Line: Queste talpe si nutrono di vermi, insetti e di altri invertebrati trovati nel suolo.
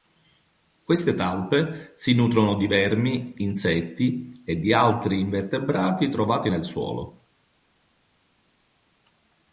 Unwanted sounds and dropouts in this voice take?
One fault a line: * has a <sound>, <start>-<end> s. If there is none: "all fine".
all fine